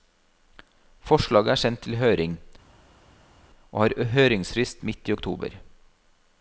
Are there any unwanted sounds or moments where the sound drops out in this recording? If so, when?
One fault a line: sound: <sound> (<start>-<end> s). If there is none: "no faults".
no faults